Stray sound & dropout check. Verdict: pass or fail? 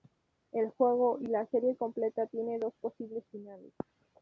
pass